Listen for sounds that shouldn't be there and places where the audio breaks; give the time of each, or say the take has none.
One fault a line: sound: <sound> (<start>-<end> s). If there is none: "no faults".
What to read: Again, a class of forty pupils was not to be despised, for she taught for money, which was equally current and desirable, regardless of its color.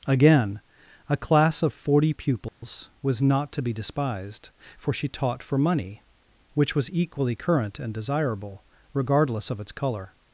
sound: dropout (2.5-2.6 s)